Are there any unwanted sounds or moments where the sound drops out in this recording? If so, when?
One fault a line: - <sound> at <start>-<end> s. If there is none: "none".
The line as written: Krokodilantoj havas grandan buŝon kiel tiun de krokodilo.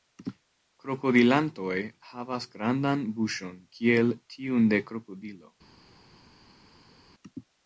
none